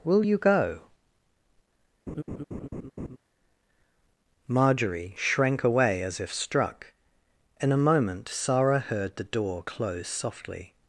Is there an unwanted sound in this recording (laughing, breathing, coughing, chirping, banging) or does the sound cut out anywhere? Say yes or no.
yes